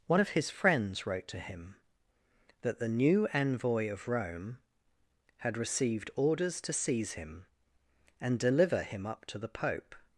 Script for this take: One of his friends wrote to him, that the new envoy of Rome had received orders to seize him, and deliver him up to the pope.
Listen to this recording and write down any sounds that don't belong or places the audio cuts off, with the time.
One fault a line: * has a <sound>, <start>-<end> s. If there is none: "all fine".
all fine